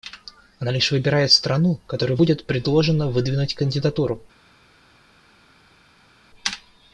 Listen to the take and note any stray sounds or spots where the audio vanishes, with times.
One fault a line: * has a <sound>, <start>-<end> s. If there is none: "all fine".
all fine